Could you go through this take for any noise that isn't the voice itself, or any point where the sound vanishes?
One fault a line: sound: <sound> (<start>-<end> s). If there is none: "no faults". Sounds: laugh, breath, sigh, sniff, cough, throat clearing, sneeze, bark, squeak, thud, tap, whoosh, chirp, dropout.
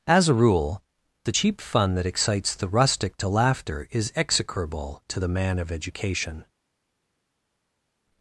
no faults